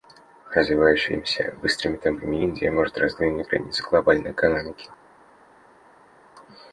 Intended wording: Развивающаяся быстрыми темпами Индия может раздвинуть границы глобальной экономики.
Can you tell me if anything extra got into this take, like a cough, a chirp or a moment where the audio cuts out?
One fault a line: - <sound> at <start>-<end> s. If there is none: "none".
none